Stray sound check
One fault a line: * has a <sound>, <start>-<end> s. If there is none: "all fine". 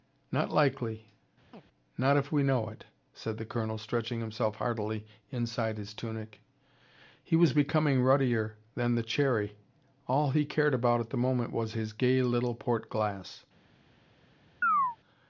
* has a chirp, 1.5-1.6 s
* has a chirp, 14.6-15.0 s